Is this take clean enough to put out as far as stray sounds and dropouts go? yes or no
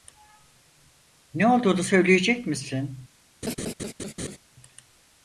no